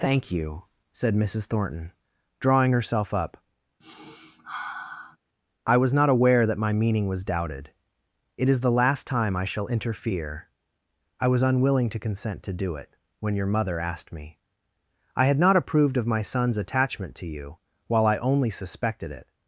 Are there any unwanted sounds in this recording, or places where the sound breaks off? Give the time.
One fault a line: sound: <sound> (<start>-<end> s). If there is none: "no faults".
sound: sniff (3.8-5.2 s)